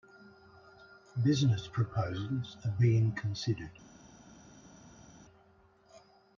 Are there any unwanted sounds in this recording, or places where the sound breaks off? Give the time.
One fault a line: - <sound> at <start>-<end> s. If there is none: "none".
none